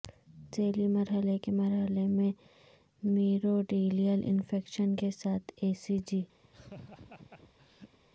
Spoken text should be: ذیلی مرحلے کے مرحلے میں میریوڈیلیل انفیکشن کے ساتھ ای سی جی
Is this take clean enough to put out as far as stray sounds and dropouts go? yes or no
no